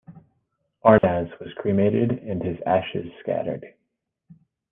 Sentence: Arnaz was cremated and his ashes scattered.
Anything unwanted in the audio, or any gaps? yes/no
yes